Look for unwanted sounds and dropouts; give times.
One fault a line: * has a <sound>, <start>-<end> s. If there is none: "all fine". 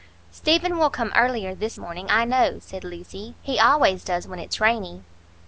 all fine